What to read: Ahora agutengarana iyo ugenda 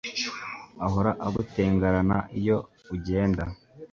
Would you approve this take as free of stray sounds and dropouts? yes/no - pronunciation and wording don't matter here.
yes